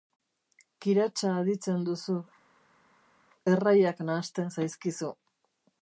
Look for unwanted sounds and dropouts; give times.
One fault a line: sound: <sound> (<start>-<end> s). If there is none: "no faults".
no faults